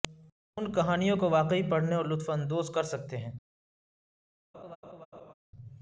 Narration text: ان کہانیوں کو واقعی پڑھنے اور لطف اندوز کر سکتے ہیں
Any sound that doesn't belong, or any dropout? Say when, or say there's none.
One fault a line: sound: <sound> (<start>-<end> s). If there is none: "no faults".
sound: laugh (4.5-5.3 s)